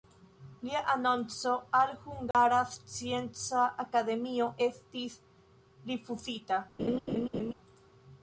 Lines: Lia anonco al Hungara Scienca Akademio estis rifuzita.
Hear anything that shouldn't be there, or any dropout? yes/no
yes